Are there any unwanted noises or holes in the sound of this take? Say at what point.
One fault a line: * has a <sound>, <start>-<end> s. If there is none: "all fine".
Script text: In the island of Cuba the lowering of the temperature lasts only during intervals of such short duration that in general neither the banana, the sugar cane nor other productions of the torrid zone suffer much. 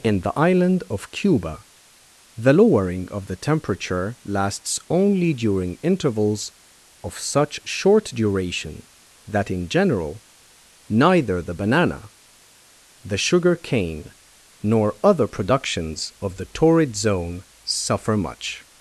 all fine